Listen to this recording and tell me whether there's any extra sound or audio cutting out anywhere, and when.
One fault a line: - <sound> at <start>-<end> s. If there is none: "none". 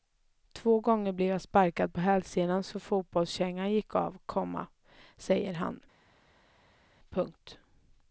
none